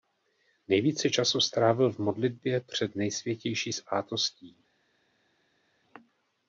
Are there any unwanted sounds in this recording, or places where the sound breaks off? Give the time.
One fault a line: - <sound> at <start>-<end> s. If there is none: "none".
none